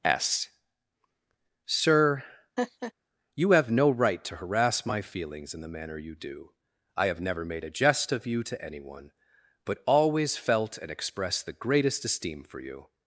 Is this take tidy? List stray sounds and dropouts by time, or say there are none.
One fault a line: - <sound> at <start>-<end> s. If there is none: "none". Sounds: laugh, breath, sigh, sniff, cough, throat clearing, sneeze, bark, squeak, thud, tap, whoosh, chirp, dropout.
- laugh at 2.6-2.9 s